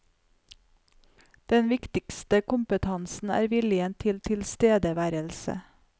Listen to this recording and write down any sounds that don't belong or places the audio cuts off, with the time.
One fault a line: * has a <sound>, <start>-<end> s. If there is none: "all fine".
all fine